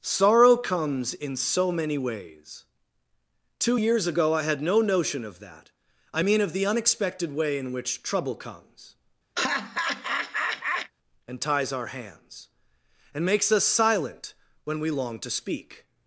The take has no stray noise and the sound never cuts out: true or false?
false